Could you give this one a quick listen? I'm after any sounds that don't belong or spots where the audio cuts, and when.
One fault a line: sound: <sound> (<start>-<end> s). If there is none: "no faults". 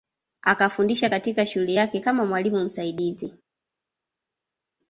no faults